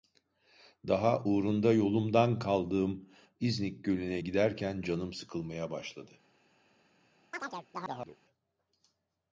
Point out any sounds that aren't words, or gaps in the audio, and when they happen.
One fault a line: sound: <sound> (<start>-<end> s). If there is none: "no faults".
sound: chirp (7.3-8.2 s)